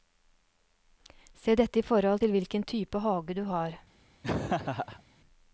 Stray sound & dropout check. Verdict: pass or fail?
fail